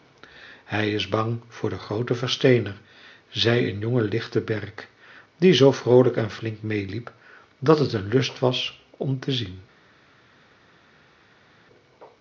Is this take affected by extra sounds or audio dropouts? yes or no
no